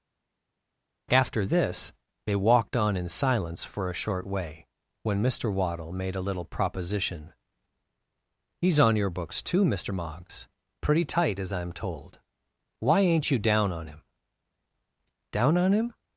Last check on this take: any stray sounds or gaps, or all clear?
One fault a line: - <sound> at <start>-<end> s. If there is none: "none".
none